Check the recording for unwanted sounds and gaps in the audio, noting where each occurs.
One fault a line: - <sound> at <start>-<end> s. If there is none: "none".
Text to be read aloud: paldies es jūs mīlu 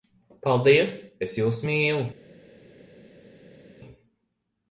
none